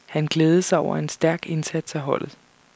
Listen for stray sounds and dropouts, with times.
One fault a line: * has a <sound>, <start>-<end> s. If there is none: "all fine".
all fine